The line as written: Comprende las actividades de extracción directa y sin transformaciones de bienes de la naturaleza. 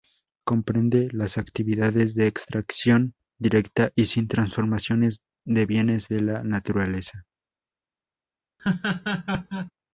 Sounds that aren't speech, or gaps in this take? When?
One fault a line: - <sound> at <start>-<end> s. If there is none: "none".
- laugh at 8.6-9.7 s